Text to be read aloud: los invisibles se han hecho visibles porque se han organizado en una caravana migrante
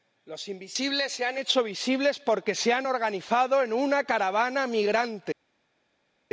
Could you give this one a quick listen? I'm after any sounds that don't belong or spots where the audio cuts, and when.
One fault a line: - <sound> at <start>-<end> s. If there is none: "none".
none